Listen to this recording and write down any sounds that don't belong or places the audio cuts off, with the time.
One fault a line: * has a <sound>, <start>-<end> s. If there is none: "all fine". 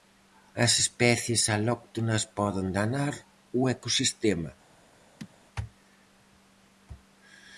* has a chirp, 5.2-5.3 s